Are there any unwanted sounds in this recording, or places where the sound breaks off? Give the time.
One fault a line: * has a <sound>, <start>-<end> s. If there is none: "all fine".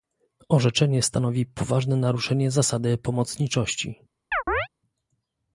* has a chirp, 4.3-4.7 s